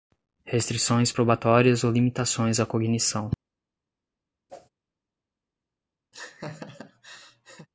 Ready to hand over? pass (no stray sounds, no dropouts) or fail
fail